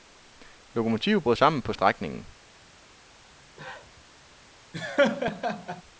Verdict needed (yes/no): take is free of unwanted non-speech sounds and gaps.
no